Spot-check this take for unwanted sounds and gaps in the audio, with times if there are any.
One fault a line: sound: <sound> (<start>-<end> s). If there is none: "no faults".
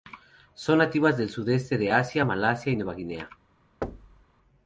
sound: thud (3.8-4.3 s)